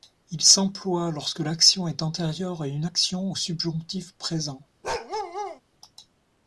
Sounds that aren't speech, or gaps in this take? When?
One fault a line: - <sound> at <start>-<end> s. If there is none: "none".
- bark at 4.8-5.6 s